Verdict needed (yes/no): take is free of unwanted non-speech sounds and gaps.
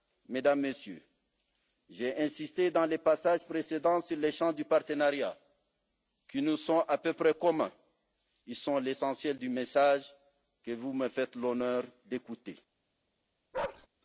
no